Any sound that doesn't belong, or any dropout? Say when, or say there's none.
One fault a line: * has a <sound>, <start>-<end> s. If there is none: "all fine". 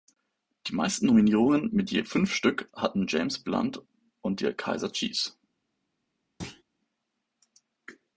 * has a thud, 6.4-6.6 s